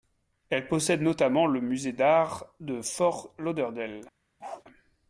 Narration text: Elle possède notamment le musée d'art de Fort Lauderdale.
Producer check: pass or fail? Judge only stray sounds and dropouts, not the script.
fail